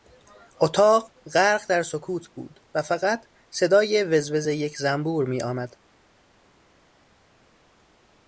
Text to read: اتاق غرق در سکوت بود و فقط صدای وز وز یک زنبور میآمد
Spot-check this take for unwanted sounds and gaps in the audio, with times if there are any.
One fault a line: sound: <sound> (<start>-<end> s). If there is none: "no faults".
no faults